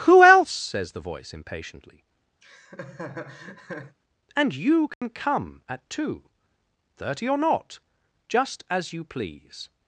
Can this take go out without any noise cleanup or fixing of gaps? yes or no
no